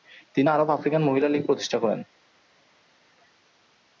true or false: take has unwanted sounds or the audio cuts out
false